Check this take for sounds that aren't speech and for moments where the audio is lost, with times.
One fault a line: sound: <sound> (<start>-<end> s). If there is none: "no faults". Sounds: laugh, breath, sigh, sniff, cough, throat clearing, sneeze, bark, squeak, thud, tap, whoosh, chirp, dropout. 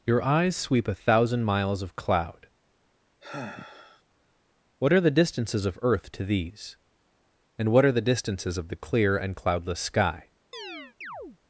sound: sigh (3.2-4.0 s)
sound: chirp (10.5-11.4 s)